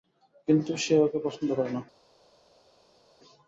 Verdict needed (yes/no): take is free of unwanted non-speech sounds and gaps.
yes